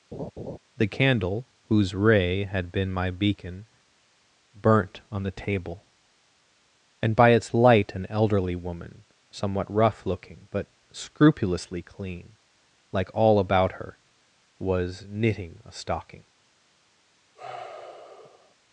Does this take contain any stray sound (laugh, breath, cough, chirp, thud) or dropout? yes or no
yes